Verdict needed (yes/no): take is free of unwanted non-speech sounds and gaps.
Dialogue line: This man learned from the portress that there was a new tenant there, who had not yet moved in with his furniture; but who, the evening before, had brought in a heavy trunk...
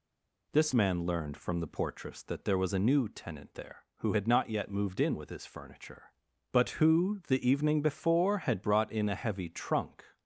yes